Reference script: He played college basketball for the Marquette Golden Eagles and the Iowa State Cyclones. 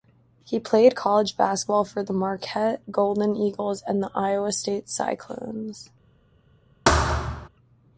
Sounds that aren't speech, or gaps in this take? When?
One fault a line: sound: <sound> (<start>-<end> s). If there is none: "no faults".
sound: thud (6.9-7.5 s)